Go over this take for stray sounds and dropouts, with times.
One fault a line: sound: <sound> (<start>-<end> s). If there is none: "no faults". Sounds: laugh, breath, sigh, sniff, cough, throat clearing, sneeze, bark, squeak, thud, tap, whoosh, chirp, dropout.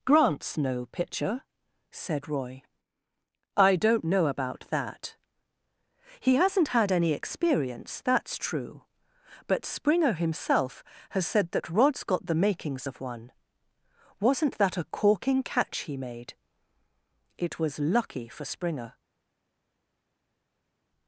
no faults